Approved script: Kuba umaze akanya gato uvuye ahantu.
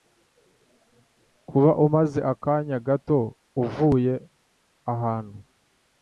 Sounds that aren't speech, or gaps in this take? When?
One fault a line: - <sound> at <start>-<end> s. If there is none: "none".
none